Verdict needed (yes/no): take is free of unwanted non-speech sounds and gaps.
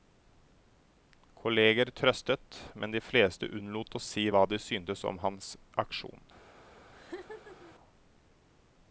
no